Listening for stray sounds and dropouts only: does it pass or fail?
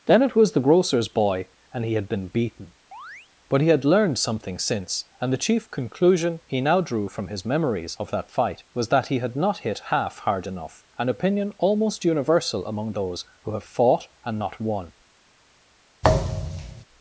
fail